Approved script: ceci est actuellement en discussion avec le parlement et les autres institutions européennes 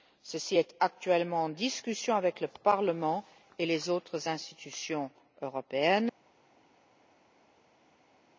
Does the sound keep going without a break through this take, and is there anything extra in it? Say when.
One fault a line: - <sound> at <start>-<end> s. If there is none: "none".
none